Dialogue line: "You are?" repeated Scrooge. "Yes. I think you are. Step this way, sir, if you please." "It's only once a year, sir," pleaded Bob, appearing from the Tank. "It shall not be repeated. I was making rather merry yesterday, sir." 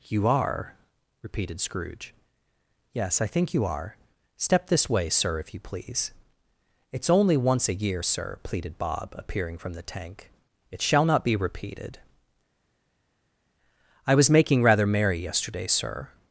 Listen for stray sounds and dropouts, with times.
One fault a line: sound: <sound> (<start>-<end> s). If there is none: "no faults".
no faults